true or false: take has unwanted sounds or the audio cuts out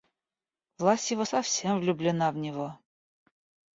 false